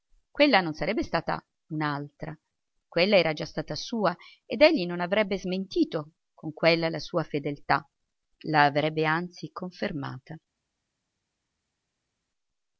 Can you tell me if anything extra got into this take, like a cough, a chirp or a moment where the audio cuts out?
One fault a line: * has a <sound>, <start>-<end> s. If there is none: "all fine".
all fine